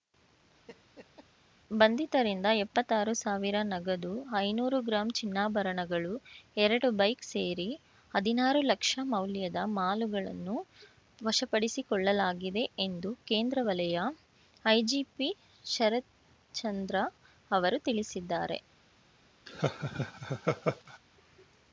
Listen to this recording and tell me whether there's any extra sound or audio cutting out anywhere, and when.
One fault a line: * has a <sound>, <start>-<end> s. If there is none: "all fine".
* has a laugh, 0.7-1.3 s
* has a laugh, 19.5-21.0 s